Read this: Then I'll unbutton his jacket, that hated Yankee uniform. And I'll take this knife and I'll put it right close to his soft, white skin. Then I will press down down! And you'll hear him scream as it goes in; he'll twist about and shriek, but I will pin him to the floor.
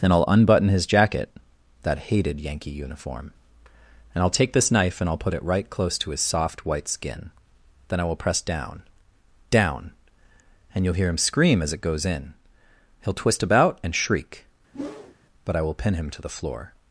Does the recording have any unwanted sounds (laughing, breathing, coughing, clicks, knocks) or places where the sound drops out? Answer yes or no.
yes